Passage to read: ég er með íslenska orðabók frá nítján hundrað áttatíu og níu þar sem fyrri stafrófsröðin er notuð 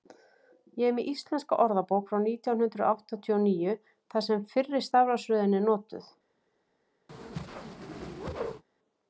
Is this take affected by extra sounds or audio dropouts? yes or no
yes